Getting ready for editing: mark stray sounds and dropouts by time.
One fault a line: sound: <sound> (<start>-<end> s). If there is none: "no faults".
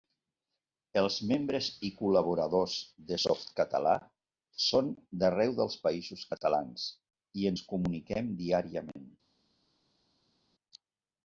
no faults